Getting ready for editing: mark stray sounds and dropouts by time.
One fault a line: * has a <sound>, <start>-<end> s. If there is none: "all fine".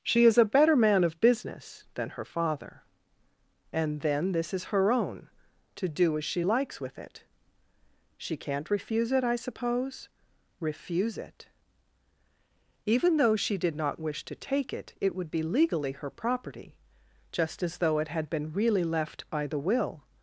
all fine